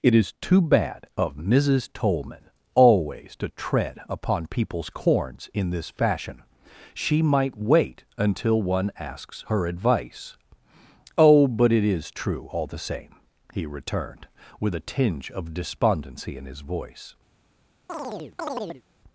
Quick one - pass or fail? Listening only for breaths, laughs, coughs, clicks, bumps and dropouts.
fail